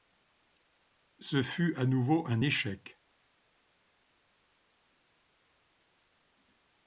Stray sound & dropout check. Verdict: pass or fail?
pass